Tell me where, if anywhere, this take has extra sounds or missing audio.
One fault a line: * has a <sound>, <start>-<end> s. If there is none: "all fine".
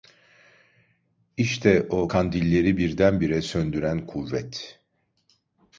all fine